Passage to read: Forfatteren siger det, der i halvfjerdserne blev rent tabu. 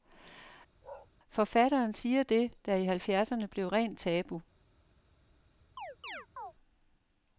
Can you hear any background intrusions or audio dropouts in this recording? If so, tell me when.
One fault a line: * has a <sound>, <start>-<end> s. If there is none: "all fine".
* has a bark, 0.8-1.1 s
* has a chirp, 5.8-6.5 s